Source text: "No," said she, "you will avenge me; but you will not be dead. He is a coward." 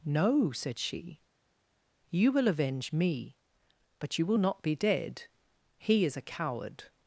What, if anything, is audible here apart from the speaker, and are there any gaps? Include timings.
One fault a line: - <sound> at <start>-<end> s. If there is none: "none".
none